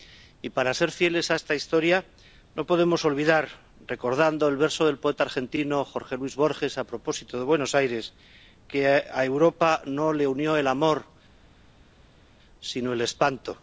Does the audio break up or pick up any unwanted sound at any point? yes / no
no